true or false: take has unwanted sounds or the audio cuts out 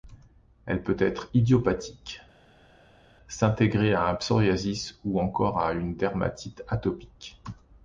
false